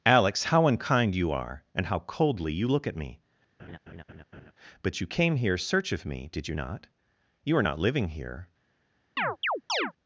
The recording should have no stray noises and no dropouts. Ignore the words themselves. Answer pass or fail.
fail